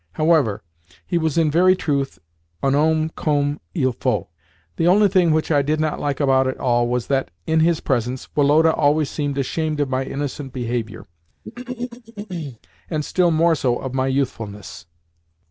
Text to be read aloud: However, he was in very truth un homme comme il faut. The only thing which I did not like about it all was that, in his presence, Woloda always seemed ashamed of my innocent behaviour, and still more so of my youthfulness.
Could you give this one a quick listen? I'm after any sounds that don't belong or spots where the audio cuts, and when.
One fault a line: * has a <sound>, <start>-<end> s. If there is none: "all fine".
* has a throat clearing, 11.4-12.6 s